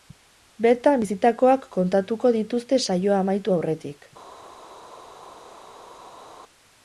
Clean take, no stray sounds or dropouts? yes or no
yes